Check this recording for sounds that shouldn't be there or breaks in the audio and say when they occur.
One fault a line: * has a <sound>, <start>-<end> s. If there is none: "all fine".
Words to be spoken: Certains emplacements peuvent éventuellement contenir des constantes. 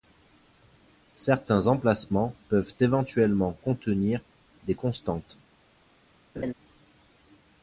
* has a laugh, 6.4-6.5 s